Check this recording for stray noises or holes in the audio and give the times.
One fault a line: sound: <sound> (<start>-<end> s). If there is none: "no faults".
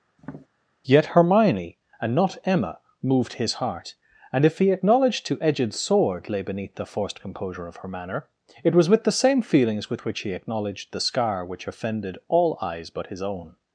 sound: tap (0.2-0.5 s)